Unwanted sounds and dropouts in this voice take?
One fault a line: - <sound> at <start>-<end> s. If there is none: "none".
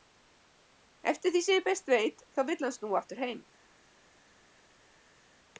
none